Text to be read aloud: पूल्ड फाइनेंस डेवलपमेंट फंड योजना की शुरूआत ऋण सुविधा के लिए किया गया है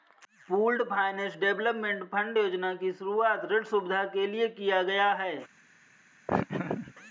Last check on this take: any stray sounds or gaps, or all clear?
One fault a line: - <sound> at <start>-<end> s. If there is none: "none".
- laugh at 6.3-6.9 s